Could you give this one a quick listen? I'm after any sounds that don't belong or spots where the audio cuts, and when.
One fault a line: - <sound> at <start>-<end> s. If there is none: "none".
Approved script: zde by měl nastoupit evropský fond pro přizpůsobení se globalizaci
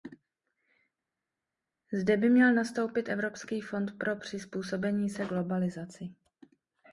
none